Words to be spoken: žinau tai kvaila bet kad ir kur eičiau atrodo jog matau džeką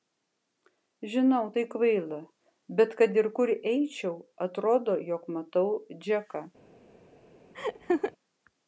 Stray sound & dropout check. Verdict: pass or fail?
fail